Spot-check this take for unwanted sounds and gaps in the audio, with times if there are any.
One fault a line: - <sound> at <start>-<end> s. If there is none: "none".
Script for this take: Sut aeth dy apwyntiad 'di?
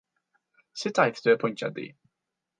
none